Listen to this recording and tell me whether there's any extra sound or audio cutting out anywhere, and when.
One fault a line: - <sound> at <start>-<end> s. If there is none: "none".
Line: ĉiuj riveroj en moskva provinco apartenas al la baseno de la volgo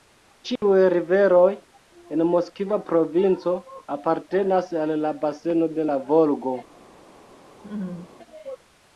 - dropout at 0.6-0.6 s
- laugh at 7.6-8.2 s